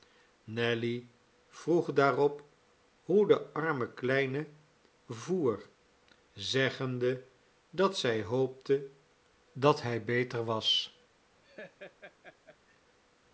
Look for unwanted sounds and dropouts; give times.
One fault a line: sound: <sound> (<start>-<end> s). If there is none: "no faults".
sound: laugh (11.4-12.8 s)